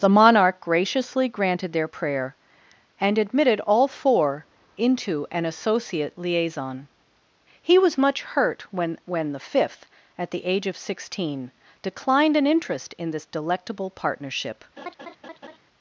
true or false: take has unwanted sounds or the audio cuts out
true